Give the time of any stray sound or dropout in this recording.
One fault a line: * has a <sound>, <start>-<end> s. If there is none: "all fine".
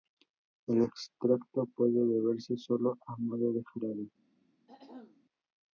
* has a throat clearing, 4.7-5.2 s